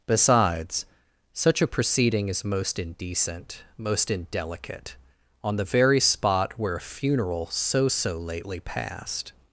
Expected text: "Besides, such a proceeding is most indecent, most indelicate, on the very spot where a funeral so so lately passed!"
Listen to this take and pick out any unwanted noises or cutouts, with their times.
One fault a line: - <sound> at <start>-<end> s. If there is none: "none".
none